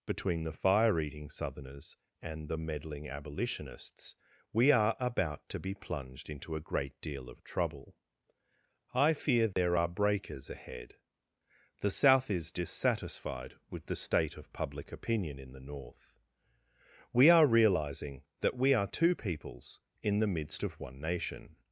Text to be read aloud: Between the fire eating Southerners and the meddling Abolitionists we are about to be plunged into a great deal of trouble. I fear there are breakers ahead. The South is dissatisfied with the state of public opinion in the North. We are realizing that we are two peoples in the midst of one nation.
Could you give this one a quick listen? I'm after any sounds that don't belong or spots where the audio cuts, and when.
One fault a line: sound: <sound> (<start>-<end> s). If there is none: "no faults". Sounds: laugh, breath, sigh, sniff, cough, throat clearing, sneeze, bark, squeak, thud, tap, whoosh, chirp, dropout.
sound: dropout (9.5-9.6 s)